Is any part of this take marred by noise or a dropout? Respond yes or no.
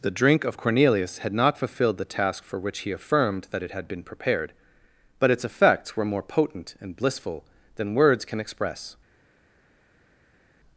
no